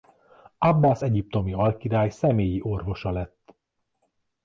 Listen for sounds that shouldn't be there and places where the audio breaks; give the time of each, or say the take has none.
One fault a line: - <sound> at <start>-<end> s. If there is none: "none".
none